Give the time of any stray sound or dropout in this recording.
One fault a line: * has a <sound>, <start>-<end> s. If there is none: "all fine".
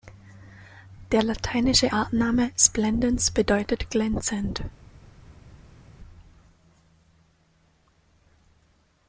all fine